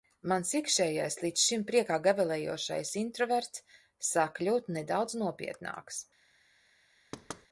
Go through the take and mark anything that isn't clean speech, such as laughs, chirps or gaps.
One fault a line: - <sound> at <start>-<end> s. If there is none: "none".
- thud at 7.1-7.5 s